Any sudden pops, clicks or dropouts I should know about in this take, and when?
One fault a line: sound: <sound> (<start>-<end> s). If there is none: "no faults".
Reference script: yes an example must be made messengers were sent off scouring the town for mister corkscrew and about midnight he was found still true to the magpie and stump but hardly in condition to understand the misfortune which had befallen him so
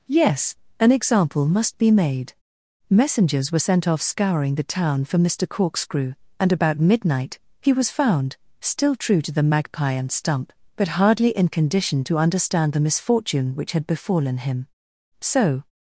no faults